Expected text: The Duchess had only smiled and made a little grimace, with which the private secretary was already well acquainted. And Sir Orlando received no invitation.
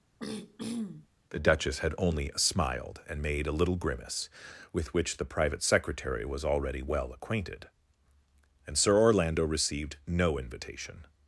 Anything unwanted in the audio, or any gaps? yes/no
yes